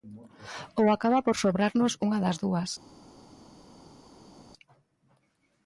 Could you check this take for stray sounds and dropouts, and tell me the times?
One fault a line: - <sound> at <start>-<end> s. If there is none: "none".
none